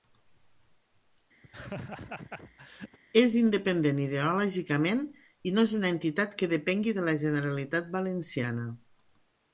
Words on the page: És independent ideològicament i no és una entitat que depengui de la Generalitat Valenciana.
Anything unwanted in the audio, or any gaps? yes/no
yes